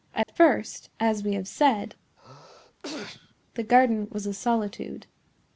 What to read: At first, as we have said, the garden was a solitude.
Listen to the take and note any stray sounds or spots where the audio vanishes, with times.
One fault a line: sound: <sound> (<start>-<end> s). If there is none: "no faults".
sound: dropout (0.2-0.3 s)
sound: sneeze (2.2-3.4 s)